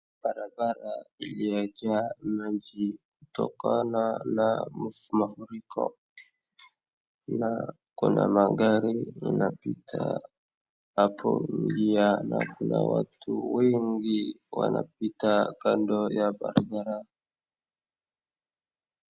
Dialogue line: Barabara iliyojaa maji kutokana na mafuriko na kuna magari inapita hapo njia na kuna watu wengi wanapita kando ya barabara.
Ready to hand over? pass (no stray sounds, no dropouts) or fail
pass